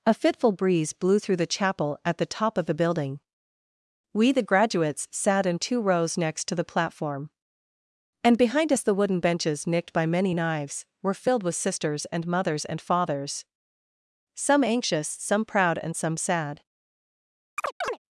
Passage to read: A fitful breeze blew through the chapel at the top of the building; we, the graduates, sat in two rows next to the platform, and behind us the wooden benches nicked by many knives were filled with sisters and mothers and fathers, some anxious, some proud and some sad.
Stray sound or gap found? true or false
true